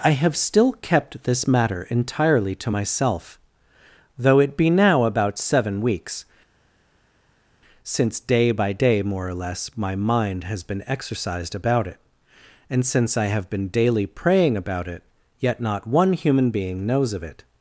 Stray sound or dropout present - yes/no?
no